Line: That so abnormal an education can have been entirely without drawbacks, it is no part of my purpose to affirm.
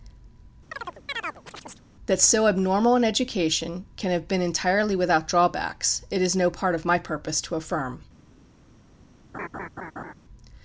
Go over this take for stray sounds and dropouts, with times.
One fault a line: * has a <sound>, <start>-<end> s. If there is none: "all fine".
* has a chirp, 0.7-1.9 s
* has a laugh, 9.3-10.1 s